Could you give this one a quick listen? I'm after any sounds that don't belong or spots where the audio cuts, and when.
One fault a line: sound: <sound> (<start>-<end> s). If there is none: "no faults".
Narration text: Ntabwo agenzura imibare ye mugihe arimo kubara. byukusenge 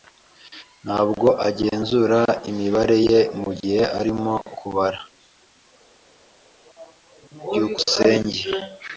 no faults